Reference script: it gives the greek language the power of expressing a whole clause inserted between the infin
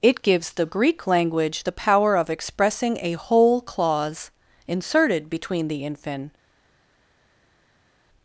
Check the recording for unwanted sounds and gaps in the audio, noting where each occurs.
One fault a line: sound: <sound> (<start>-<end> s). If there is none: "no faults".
no faults